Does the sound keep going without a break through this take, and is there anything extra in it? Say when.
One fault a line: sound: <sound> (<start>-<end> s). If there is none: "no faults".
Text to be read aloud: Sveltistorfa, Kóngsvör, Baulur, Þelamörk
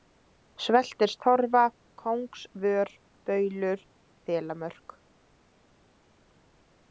no faults